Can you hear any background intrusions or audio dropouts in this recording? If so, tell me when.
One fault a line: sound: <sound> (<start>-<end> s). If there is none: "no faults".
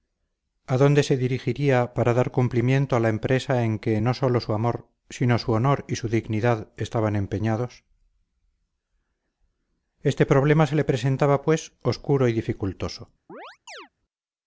sound: chirp (13.3-13.9 s)